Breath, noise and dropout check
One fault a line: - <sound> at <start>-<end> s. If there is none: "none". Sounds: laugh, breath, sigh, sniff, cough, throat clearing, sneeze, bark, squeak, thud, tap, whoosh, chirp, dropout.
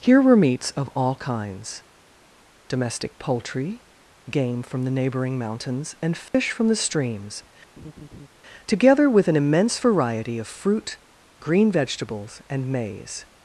- dropout at 6.3-6.3 s
- laugh at 7.8-8.3 s